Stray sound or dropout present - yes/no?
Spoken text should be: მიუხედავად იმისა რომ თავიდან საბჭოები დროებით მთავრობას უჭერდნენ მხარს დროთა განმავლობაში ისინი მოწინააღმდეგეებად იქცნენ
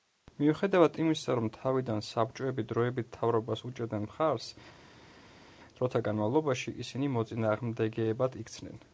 no